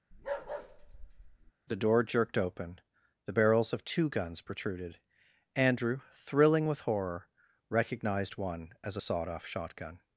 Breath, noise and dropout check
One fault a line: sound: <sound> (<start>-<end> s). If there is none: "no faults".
sound: bark (0.1-1.5 s)